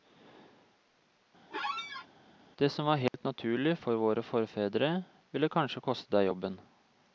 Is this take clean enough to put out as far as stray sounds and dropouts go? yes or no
no